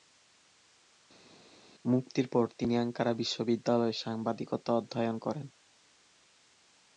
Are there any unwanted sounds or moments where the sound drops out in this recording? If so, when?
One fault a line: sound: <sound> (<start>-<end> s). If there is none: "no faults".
no faults